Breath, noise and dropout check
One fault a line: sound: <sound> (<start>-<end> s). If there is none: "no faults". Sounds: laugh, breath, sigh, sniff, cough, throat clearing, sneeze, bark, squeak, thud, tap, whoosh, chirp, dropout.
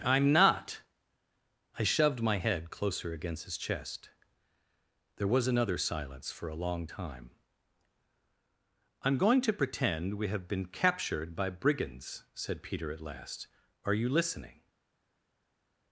no faults